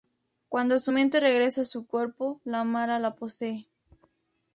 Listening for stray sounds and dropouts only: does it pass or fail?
pass